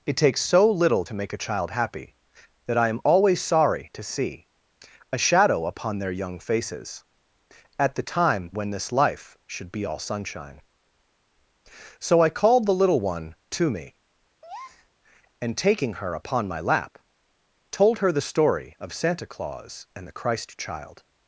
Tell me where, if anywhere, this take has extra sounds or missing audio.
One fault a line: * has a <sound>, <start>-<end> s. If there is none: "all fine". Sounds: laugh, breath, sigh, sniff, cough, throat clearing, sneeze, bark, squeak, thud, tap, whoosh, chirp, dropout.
* has a breath, 14.4-14.9 s